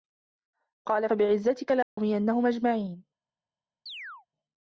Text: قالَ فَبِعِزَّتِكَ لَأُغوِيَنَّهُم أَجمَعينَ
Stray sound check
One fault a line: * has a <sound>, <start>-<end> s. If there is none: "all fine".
* has a dropout, 1.8-2.0 s
* has a chirp, 3.9-4.3 s